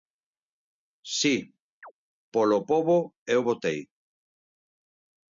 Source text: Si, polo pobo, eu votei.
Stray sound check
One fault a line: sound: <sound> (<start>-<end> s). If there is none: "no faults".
sound: chirp (1.8-1.9 s)